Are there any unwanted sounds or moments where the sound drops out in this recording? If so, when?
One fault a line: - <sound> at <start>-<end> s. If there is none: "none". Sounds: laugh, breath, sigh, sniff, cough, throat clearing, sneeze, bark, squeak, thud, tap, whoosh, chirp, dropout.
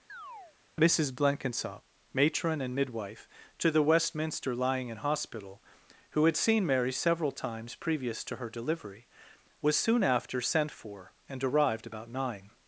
- chirp at 0.1-0.6 s